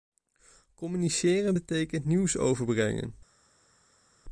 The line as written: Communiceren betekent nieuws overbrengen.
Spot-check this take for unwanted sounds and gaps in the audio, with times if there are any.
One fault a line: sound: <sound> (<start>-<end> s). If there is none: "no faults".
no faults